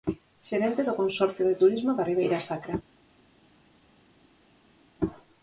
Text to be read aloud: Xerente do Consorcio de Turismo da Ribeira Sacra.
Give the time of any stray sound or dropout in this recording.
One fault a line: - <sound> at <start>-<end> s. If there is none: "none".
none